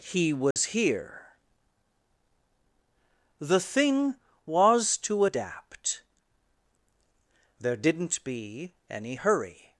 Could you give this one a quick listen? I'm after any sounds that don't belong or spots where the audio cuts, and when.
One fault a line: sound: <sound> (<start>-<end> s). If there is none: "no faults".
sound: dropout (0.5-0.6 s)